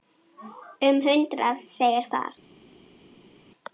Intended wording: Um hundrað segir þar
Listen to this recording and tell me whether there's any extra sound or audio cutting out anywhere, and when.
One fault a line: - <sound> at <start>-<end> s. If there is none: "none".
none